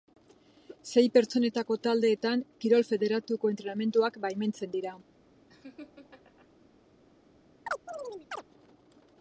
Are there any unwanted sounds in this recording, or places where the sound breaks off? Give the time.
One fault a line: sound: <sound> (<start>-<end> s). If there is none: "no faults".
sound: laugh (5.5-6.5 s)
sound: chirp (7.7-8.4 s)